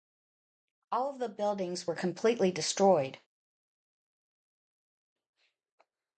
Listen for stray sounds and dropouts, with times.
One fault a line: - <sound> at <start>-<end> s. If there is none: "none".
none